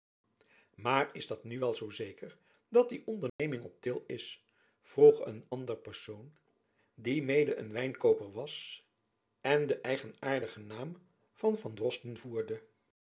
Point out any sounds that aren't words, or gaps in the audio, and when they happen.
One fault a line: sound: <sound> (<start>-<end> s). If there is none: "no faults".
sound: dropout (3.3-3.4 s)